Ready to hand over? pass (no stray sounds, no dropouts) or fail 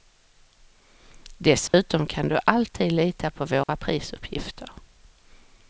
fail